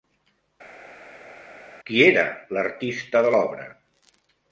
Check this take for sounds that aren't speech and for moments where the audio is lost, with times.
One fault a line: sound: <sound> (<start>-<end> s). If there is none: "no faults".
no faults